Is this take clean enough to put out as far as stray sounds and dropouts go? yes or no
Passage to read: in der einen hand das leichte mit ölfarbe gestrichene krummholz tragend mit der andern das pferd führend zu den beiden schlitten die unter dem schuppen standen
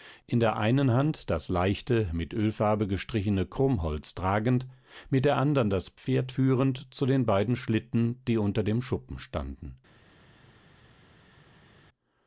yes